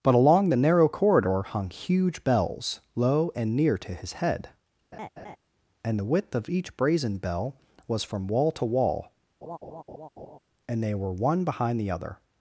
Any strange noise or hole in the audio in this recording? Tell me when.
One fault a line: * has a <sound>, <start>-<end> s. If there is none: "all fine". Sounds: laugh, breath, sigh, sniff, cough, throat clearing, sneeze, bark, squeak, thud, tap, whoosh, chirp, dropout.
* has a laugh, 4.9-5.4 s
* has a laugh, 9.4-10.4 s